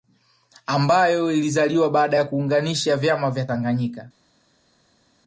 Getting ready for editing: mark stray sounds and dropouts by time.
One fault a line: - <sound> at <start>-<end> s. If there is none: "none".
none